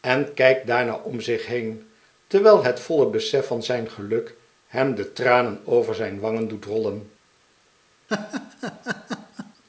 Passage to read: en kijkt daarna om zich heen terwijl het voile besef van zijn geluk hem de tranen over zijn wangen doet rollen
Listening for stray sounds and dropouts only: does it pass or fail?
fail